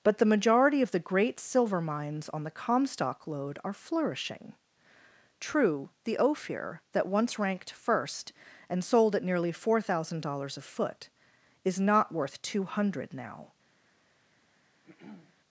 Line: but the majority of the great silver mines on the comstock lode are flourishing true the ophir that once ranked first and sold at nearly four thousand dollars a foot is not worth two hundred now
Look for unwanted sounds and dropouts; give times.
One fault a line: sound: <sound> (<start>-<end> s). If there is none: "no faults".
sound: throat clearing (14.8-15.4 s)